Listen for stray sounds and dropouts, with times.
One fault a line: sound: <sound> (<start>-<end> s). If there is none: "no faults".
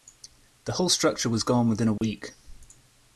sound: dropout (2.0-2.0 s)